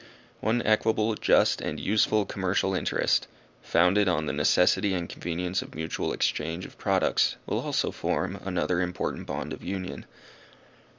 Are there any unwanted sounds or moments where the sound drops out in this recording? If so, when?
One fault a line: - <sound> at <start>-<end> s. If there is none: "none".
none